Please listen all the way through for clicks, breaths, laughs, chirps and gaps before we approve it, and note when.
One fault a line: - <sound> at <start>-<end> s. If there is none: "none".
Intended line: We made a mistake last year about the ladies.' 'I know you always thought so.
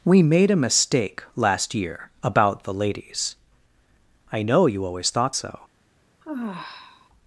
- sigh at 6.2-7.1 s